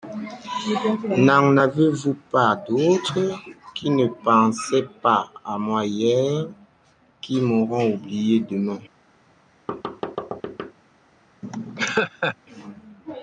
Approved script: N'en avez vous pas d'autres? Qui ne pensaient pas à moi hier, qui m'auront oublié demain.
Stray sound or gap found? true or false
true